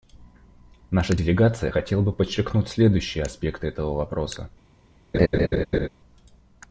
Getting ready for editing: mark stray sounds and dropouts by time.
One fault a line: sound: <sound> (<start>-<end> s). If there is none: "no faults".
sound: laugh (5.1-5.9 s)